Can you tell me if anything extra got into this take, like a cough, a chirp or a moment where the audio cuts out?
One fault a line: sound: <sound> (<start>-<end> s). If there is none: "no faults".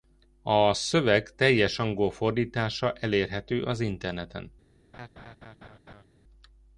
sound: laugh (4.9-6.0 s)